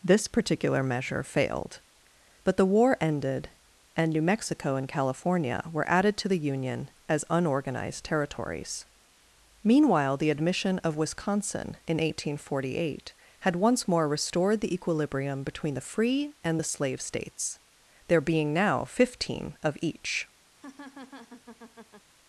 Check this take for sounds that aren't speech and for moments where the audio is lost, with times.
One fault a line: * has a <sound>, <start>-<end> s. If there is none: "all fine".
* has a laugh, 20.5-22.1 s